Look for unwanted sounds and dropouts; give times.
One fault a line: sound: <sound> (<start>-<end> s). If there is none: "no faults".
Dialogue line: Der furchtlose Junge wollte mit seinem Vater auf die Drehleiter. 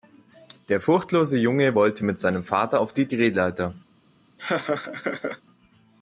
sound: laugh (4.4-5.4 s)